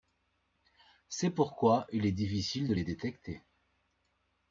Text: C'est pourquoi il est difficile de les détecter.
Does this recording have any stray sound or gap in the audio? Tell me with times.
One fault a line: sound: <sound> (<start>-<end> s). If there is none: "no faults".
no faults